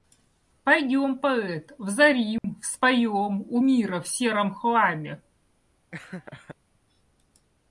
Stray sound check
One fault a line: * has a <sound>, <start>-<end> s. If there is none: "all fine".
* has a dropout, 2.4-2.4 s
* has a laugh, 5.9-6.6 s